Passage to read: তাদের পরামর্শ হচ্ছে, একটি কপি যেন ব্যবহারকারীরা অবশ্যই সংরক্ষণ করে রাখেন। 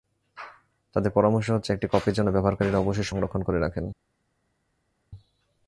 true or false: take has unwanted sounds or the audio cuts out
false